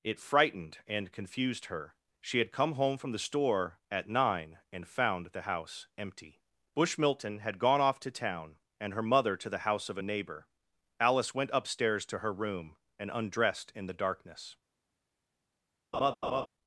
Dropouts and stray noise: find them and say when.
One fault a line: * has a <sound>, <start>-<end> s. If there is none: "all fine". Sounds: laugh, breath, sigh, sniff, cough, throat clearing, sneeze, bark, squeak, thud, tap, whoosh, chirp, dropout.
* has a laugh, 15.9-16.5 s